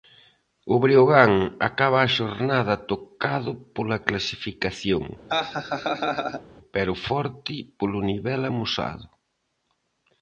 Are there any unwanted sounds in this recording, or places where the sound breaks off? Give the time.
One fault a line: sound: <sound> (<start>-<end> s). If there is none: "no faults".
sound: laugh (5.3-6.4 s)